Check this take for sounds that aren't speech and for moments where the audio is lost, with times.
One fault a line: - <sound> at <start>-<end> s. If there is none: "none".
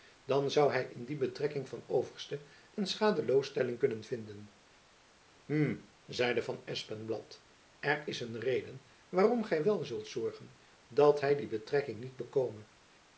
none